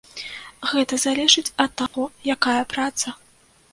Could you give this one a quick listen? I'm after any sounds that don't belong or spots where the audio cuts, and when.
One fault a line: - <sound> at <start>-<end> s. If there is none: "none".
- dropout at 1.9-1.9 s